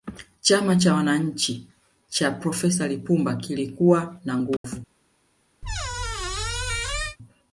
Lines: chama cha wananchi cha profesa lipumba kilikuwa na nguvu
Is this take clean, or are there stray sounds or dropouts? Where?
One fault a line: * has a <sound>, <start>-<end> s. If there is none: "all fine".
* has a dropout, 4.6-4.6 s
* has a squeak, 5.6-7.2 s